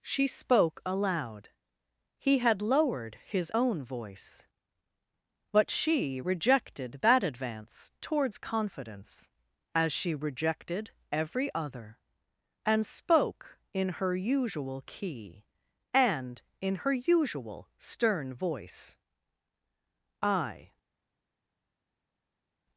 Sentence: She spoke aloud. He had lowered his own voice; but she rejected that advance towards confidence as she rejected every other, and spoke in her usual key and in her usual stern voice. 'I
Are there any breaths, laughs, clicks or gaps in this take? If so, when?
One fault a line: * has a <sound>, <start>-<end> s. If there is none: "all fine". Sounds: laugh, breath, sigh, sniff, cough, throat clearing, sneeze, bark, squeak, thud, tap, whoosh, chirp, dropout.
all fine